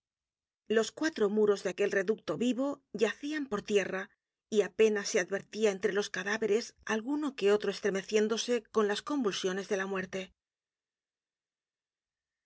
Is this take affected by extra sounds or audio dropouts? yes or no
no